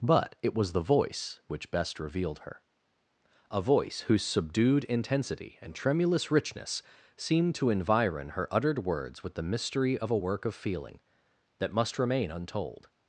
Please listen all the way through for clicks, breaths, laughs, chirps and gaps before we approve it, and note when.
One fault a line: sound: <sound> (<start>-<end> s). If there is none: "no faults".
no faults